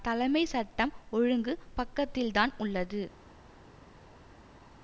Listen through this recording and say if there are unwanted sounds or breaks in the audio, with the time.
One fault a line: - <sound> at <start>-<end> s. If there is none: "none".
none